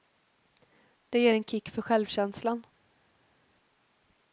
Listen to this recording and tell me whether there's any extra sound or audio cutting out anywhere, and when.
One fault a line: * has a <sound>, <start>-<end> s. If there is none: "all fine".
all fine